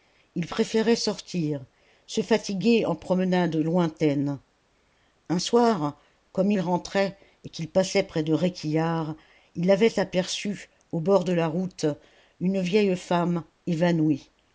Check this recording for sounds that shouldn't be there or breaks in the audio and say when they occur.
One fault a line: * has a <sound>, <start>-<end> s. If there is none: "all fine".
all fine